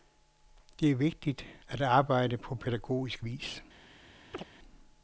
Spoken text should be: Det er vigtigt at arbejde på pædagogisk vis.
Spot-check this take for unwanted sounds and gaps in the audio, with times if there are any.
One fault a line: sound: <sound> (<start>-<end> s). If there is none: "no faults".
sound: chirp (4.3-4.4 s)